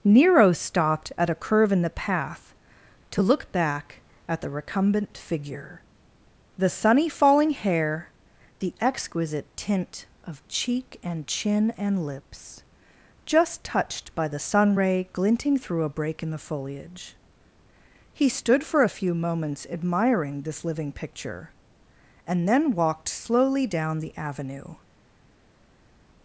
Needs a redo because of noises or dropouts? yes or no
no